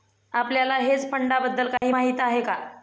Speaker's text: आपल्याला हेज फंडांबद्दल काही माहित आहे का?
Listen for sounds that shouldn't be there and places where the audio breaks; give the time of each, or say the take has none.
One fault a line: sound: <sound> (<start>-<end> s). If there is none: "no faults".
sound: dropout (1.8-1.8 s)